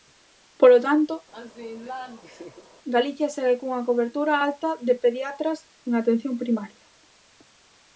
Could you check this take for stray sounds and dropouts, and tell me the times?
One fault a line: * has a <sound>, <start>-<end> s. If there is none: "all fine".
* has a laugh, 1.3-2.7 s